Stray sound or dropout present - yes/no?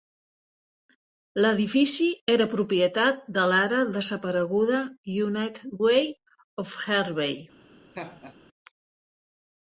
yes